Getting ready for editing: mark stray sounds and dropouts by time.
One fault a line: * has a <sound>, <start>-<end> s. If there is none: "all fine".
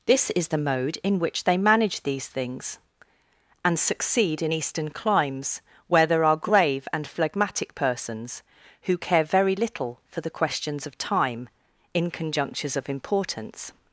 all fine